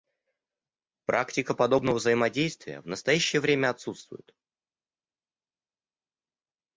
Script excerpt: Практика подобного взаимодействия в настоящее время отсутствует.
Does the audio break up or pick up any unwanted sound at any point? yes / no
no